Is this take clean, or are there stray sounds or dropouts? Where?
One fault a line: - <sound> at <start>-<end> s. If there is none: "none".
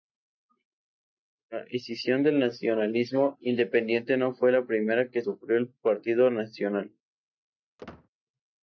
- squeak at 7.8-8.1 s